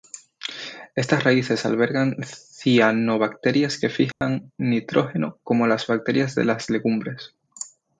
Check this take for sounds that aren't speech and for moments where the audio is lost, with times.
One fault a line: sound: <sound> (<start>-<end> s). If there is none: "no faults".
sound: dropout (4.1-4.2 s)